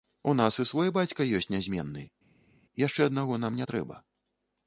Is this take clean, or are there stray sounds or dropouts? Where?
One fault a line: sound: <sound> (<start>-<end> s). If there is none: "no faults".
no faults